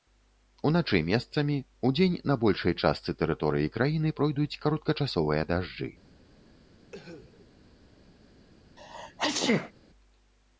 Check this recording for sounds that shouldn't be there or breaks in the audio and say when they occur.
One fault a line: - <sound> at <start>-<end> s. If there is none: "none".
- cough at 6.8-7.5 s
- sneeze at 8.8-9.7 s